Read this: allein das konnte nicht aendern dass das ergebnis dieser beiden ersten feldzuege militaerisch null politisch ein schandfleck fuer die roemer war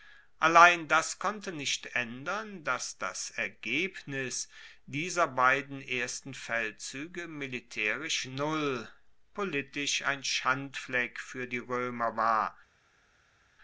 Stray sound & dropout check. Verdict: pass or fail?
pass